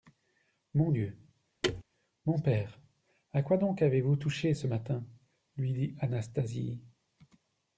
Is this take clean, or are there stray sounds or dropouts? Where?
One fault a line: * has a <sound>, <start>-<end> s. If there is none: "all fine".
* has a thud, 1.6-1.8 s